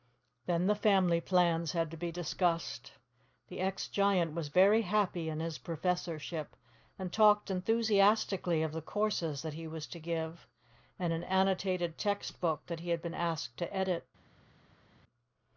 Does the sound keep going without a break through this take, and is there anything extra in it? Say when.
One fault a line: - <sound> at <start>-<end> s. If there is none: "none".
none